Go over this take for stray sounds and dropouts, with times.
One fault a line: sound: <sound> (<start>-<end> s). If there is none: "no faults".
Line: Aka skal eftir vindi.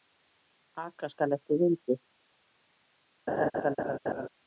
sound: laugh (3.3-4.3 s)